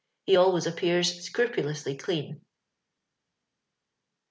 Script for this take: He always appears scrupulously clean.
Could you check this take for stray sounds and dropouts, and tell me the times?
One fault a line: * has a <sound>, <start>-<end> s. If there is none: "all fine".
all fine